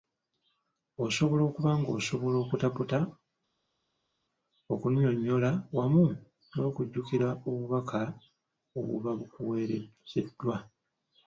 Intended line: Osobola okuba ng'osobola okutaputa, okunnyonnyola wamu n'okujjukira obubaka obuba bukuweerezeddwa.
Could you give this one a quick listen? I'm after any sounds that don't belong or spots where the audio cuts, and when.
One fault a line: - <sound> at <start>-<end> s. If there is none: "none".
none